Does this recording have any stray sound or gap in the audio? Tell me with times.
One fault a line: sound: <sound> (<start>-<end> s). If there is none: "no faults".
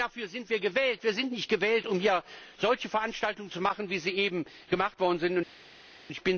no faults